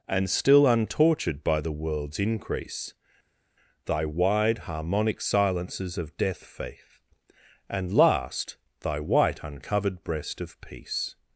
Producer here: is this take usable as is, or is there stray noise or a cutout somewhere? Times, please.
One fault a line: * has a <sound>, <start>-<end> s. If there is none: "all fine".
all fine